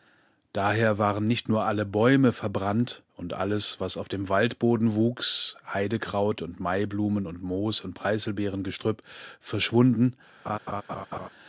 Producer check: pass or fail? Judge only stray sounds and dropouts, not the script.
fail